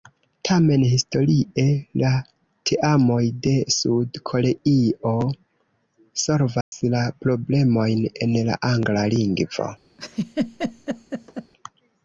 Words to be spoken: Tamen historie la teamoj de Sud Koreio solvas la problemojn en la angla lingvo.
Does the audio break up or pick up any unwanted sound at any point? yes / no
yes